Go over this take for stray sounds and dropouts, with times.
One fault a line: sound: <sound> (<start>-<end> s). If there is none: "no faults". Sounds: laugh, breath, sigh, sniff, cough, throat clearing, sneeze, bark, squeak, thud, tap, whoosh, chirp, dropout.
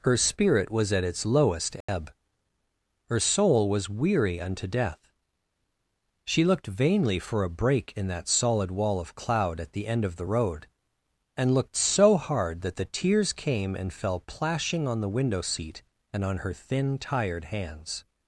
sound: dropout (1.8-1.9 s)